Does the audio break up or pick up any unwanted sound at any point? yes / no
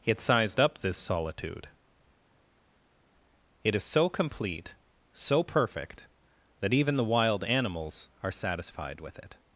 no